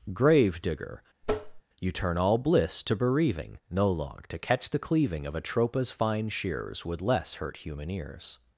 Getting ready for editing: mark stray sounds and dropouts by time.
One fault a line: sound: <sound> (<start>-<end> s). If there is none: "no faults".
sound: tap (1.2-1.6 s)